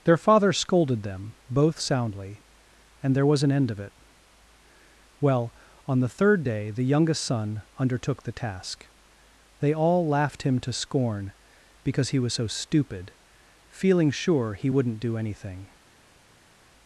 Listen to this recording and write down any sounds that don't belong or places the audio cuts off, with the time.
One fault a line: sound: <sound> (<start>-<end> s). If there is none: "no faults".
no faults